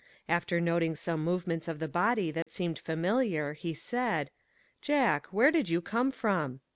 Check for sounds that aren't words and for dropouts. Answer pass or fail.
fail